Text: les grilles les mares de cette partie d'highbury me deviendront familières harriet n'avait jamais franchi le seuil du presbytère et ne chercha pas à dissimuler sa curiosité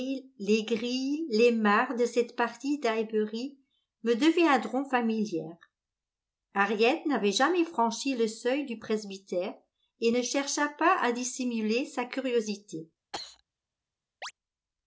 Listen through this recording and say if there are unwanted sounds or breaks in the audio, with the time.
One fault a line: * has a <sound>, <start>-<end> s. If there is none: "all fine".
* has a cough, 13.1-13.4 s
* has a chirp, 14.2-14.3 s